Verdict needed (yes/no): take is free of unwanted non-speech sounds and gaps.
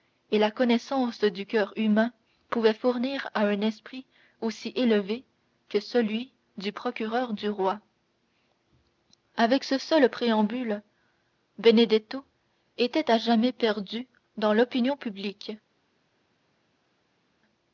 yes